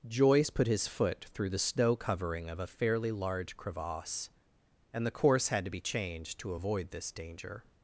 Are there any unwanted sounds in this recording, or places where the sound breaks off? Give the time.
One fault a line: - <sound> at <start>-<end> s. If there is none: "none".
none